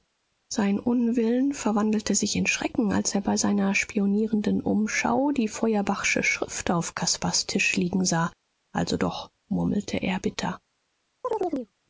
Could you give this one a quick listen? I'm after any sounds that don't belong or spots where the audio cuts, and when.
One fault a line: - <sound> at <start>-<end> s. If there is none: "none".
- chirp at 11.2-11.7 s